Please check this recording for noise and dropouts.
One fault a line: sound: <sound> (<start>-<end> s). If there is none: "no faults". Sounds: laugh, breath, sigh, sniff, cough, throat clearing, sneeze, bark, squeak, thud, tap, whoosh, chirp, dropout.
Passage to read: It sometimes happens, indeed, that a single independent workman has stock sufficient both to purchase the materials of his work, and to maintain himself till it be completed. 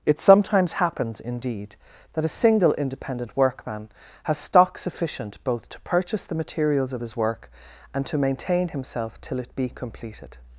no faults